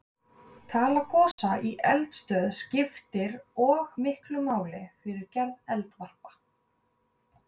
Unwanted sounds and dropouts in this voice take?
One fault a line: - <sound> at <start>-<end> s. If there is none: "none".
- dropout at 1.3-1.4 s